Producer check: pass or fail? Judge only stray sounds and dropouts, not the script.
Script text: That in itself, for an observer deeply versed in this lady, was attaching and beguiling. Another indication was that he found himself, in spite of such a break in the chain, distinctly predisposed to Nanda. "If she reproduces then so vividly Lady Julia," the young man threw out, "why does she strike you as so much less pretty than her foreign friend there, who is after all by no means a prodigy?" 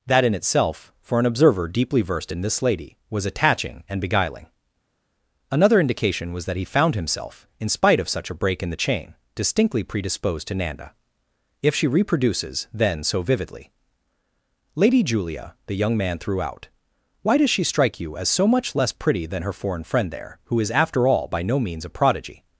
pass